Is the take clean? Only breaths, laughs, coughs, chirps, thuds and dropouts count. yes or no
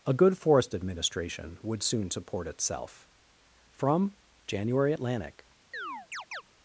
no